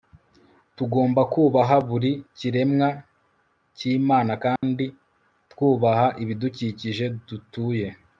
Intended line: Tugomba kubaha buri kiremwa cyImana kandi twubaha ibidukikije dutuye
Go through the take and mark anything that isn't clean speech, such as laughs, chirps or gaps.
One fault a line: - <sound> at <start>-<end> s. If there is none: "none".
- dropout at 4.6-4.6 s